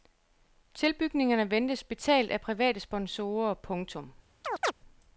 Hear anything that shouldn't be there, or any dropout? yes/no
yes